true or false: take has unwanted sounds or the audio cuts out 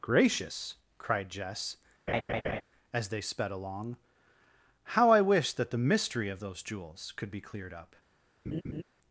true